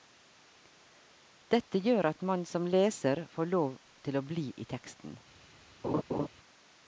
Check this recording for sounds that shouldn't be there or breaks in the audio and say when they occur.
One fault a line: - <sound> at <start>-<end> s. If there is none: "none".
- laugh at 5.8-6.3 s